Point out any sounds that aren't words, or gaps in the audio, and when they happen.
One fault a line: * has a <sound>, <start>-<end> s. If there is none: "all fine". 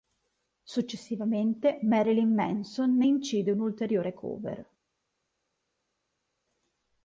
all fine